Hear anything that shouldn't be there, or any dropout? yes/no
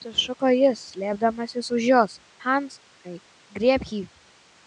no